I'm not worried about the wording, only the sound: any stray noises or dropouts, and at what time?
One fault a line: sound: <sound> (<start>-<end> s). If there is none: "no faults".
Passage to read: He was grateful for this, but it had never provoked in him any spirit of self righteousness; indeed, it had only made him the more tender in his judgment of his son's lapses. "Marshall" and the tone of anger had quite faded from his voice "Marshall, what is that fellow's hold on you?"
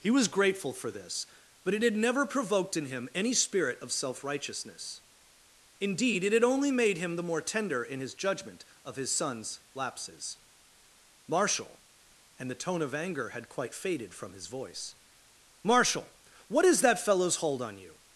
no faults